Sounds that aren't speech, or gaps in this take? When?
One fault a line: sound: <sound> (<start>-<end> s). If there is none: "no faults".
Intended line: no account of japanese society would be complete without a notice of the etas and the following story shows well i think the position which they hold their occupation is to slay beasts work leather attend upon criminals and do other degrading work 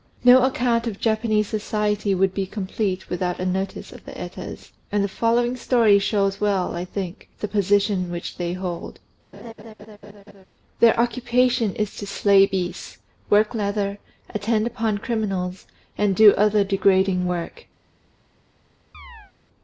sound: laugh (9.3-10.5 s)
sound: chirp (18.9-19.3 s)